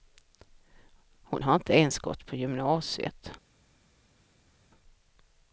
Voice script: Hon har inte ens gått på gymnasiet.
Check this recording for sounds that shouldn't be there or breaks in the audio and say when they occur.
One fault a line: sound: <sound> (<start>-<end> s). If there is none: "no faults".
no faults